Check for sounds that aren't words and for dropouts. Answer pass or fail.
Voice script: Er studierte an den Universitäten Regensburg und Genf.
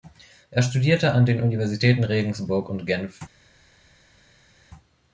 pass